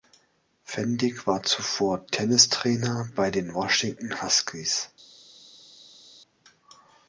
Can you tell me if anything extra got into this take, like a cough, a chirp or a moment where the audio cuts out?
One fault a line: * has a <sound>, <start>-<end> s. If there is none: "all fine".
all fine